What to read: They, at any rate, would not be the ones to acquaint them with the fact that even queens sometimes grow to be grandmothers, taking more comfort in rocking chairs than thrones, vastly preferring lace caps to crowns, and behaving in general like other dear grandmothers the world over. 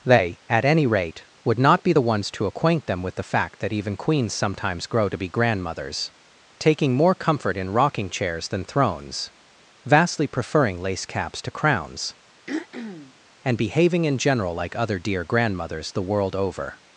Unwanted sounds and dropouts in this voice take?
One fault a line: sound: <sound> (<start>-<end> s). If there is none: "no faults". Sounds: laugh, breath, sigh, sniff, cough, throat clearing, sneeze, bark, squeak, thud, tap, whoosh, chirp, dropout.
sound: throat clearing (12.5-13.1 s)